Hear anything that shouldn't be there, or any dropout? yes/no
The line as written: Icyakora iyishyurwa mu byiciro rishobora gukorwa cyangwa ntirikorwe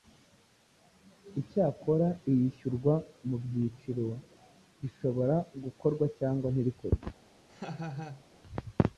yes